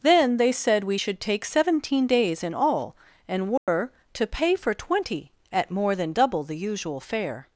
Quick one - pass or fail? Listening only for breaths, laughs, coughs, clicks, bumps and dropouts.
fail